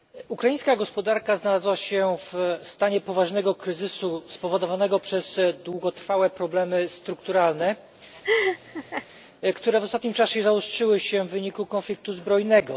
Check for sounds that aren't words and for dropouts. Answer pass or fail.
fail